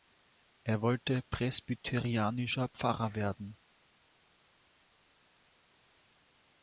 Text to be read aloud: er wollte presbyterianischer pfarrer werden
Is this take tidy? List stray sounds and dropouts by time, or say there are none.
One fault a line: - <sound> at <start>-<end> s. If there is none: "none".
none